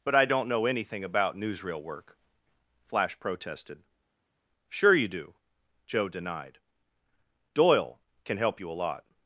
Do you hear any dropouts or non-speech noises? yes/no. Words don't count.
no